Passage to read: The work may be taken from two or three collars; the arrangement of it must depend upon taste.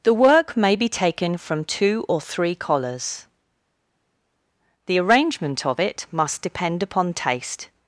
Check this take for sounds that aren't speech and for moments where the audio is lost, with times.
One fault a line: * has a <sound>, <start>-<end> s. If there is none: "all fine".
all fine